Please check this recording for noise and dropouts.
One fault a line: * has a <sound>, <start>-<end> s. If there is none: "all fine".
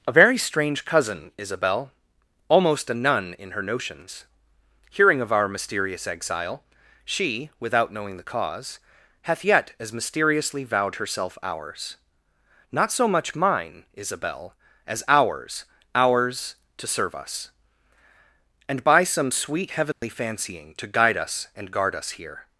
* has a dropout, 19.9-20.0 s